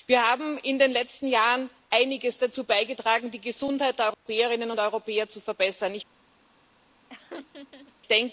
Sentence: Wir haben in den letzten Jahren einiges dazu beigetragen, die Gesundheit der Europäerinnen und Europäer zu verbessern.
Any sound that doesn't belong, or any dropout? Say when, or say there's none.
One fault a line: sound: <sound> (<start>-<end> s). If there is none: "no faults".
sound: dropout (4.1-4.3 s)
sound: laugh (7.1-7.9 s)